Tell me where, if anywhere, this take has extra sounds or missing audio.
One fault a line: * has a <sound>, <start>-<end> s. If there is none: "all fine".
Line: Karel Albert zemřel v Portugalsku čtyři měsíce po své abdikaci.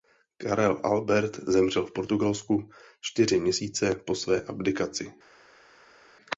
all fine